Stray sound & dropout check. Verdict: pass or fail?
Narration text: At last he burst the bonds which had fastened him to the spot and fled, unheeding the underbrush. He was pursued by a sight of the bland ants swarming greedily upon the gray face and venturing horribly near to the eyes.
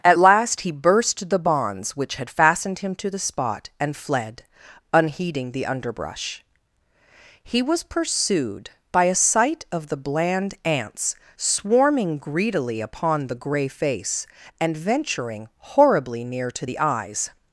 pass